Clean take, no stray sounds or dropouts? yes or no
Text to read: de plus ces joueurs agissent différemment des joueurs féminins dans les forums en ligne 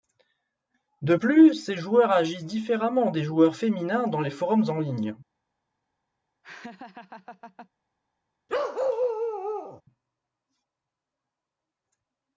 no